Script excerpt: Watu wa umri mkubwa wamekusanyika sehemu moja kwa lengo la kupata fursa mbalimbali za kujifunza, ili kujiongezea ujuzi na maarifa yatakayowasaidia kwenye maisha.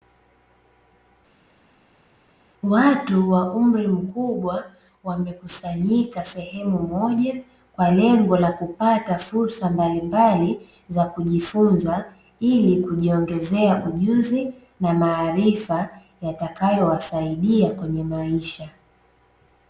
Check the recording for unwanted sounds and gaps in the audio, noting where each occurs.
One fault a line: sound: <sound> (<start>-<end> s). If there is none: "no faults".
no faults